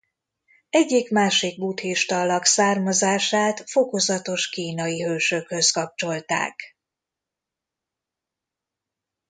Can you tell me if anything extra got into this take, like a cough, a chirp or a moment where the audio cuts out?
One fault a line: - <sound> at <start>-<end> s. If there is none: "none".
none